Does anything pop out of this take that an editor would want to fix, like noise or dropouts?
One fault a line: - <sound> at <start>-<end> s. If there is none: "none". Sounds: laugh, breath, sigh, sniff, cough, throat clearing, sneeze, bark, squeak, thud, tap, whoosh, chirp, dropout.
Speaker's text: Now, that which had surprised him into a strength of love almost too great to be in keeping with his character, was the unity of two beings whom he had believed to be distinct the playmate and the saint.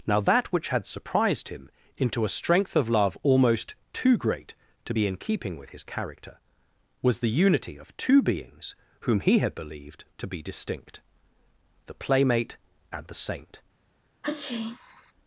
- sneeze at 14.2-15.1 s